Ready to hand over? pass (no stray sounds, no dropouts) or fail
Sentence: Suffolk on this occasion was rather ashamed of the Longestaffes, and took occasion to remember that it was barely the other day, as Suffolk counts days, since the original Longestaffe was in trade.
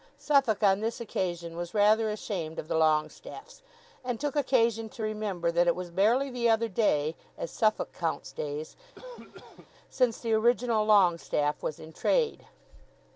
fail